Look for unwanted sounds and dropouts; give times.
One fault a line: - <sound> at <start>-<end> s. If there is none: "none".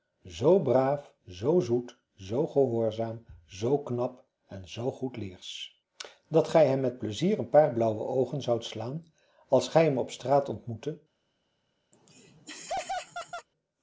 - laugh at 11.9-13.5 s